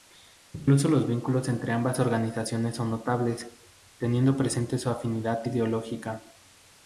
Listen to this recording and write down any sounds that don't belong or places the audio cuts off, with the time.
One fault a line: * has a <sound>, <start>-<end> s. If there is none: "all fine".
all fine